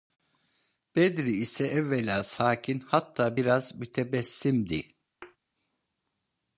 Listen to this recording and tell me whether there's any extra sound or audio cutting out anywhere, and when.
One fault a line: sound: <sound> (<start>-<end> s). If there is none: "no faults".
sound: thud (5.2-5.4 s)